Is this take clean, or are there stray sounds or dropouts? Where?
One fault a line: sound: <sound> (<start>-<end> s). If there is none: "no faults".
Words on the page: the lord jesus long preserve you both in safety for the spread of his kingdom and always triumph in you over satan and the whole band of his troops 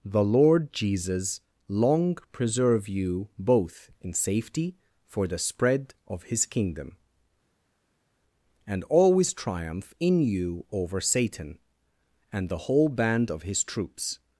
no faults